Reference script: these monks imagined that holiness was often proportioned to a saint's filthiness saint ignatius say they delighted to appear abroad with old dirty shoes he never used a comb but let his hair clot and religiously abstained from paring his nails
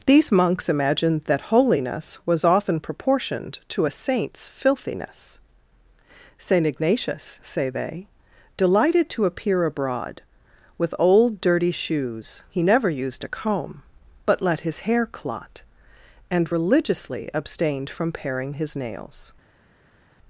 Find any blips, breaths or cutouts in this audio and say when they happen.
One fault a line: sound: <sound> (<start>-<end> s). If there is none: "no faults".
no faults